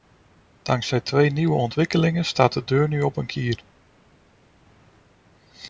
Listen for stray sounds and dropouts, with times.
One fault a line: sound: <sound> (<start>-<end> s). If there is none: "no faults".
no faults